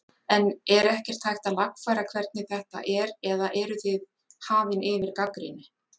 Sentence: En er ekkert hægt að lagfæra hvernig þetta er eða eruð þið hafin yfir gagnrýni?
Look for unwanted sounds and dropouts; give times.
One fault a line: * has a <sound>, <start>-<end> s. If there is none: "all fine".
all fine